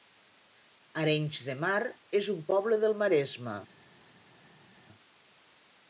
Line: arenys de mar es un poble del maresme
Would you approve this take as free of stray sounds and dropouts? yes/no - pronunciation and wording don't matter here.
yes